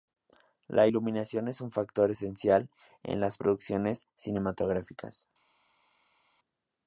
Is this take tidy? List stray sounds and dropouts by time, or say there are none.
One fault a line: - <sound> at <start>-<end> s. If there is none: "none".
none